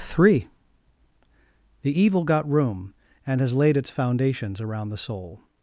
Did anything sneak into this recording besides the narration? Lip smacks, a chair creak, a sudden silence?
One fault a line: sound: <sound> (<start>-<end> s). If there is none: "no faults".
no faults